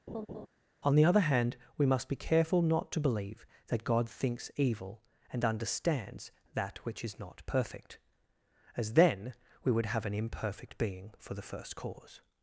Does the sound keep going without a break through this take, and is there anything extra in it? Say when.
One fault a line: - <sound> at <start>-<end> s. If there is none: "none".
- laugh at 0.1-0.5 s